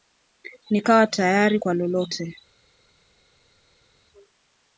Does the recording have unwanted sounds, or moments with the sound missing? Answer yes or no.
no